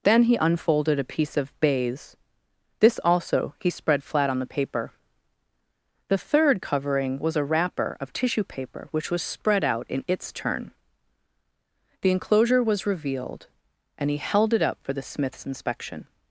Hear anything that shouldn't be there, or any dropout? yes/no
no